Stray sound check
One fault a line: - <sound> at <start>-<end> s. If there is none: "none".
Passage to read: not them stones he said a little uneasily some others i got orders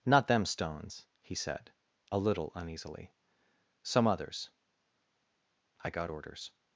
none